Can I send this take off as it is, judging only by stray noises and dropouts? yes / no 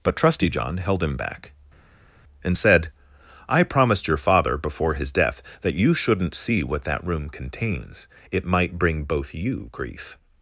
yes